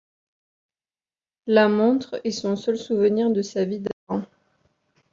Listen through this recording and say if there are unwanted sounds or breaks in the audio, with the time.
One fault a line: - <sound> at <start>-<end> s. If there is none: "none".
none